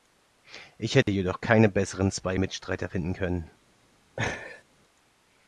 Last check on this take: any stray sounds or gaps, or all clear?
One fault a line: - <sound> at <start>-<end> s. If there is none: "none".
- dropout at 1.0-1.1 s
- laugh at 4.2-4.6 s